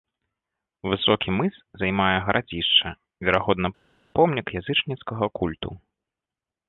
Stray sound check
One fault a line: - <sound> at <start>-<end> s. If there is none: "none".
none